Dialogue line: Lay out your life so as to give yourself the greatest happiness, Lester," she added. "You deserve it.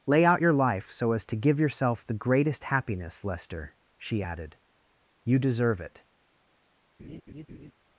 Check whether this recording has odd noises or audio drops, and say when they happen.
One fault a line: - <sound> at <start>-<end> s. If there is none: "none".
- laugh at 7.0-7.7 s